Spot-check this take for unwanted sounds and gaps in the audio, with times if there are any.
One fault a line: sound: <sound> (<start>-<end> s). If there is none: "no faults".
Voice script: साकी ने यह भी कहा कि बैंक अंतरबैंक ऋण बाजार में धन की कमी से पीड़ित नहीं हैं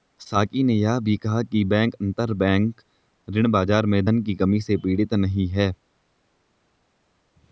no faults